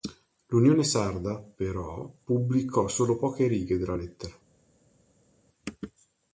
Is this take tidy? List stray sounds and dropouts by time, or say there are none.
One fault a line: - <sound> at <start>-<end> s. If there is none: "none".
none